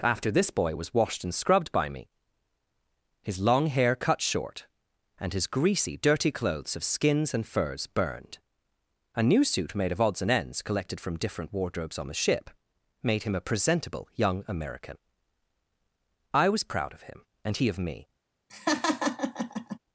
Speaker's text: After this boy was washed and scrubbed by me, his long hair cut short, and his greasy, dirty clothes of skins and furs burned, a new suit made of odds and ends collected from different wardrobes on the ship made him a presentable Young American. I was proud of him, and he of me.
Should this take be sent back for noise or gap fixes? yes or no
yes